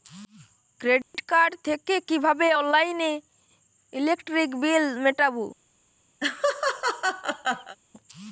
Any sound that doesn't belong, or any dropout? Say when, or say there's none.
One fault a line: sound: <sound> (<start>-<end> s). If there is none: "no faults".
sound: dropout (1.0-1.1 s)
sound: laugh (6.2-7.8 s)